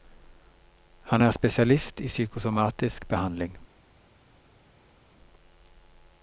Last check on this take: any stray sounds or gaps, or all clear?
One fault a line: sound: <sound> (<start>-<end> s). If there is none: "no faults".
no faults